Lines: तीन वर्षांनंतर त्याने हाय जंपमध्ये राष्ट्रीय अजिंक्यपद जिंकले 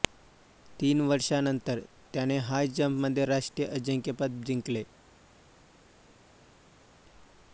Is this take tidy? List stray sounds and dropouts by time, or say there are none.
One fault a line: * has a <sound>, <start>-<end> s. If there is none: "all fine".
all fine